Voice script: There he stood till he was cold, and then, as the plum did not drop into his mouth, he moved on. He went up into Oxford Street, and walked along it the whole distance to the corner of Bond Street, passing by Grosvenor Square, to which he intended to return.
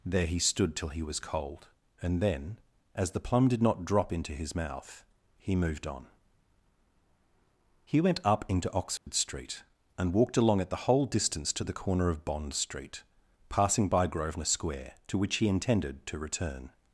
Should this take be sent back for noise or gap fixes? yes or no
yes